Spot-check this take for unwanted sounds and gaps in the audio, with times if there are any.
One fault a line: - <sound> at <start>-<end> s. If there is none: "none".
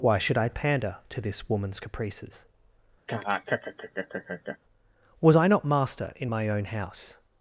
- laugh at 3.1-4.6 s